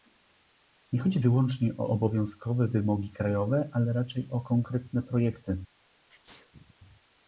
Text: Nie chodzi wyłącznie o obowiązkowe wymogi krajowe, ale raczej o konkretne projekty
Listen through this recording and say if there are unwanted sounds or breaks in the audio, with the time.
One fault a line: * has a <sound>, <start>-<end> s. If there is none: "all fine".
* has a sneeze, 6.1-6.7 s